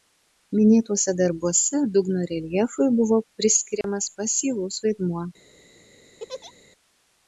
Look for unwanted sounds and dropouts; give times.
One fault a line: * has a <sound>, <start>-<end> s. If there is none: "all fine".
* has a dropout, 3.8-3.8 s
* has a laugh, 6.2-6.5 s